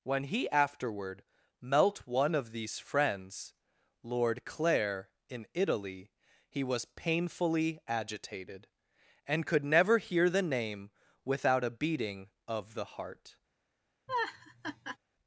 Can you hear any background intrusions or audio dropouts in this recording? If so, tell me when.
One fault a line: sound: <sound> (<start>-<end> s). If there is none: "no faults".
sound: laugh (14.1-15.0 s)